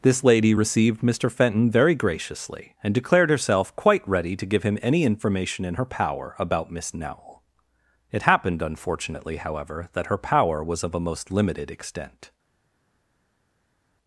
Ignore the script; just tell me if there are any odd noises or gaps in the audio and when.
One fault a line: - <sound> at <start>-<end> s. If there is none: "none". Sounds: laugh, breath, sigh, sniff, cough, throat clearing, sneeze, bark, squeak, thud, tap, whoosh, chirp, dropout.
none